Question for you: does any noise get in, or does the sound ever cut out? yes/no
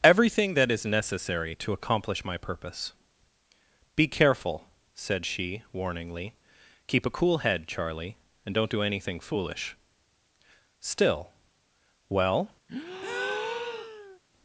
yes